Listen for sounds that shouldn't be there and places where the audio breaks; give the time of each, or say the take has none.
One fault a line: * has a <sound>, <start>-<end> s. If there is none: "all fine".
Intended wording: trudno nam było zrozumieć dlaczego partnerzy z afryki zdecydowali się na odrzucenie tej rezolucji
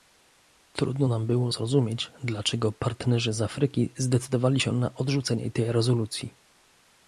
all fine